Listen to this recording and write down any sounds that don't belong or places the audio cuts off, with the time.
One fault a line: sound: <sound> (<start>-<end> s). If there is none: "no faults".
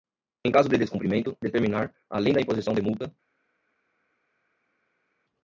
no faults